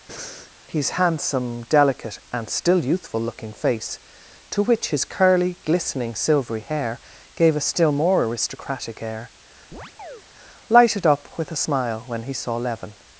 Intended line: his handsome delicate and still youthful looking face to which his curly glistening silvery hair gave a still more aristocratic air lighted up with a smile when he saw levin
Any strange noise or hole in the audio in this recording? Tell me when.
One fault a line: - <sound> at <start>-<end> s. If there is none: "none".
- breath at 0.1-0.5 s
- chirp at 9.7-10.2 s